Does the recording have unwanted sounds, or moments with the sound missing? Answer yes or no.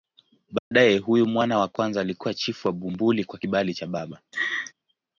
yes